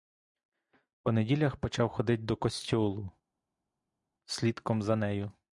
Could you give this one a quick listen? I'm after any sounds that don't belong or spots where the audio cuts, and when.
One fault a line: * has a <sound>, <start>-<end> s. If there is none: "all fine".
all fine